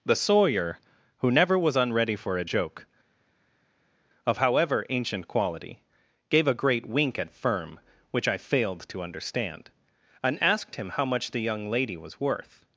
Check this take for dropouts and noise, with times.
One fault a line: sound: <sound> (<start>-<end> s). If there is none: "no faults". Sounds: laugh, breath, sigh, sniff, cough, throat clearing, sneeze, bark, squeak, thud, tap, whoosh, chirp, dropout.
no faults